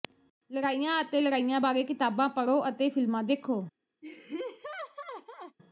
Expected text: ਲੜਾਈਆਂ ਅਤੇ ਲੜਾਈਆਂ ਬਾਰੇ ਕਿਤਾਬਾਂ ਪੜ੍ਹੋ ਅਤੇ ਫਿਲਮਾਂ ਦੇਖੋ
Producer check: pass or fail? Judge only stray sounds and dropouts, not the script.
fail